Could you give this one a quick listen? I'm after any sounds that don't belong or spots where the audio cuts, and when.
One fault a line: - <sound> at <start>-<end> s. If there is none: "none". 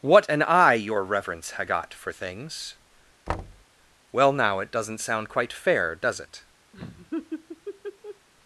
- thud at 3.3-3.7 s
- laugh at 6.7-8.3 s